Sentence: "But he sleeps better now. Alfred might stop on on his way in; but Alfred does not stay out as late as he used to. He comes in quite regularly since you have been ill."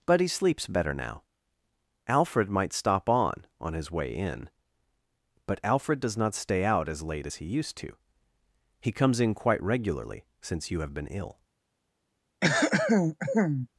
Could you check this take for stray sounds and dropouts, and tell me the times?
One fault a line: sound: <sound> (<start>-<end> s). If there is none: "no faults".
sound: throat clearing (12.4-13.7 s)